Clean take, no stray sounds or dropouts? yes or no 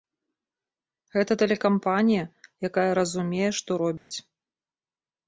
no